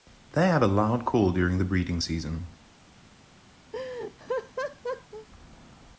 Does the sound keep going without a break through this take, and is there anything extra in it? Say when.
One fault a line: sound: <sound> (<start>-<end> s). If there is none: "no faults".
sound: laugh (3.7-5.3 s)